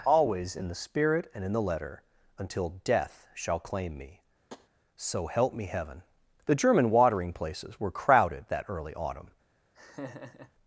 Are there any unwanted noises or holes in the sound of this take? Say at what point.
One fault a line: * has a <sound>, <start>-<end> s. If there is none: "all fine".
* has a tap, 4.5-4.7 s
* has a laugh, 9.7-10.5 s